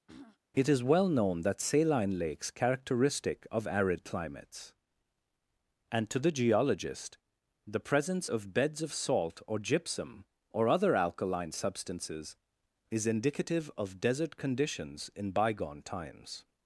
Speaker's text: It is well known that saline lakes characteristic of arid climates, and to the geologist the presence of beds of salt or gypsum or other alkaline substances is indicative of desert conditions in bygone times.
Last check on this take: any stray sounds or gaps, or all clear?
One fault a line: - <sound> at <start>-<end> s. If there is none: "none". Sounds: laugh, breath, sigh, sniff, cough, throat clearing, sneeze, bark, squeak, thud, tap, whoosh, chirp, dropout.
- throat clearing at 0.1-0.4 s